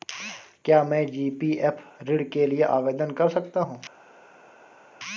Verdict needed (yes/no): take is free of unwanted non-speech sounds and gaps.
yes